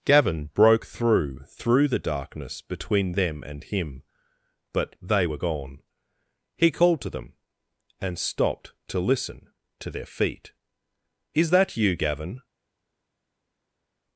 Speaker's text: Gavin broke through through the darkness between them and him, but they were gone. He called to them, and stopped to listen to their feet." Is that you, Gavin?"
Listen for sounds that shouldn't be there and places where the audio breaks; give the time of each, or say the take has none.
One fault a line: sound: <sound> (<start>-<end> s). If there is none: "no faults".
no faults